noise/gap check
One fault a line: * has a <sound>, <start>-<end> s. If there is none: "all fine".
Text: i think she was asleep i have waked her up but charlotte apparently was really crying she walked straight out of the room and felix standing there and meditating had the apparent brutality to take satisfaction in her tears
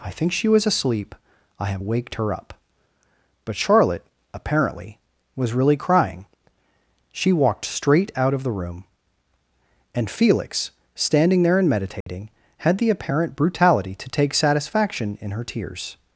* has a dropout, 12.0-12.1 s